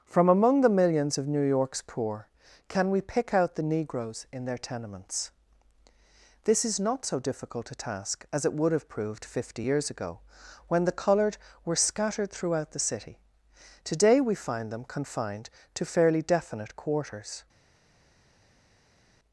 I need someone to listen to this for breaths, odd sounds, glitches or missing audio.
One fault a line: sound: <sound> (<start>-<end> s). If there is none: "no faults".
no faults